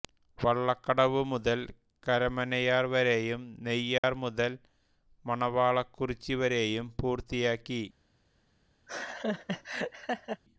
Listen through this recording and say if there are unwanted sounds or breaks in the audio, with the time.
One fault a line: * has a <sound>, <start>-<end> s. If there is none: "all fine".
* has a dropout, 4.0-4.0 s
* has a laugh, 8.9-10.4 s